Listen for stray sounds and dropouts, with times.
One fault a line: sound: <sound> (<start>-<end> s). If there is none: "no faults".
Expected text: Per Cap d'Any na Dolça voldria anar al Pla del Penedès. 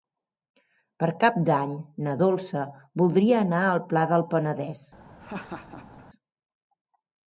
sound: laugh (5.2-6.0 s)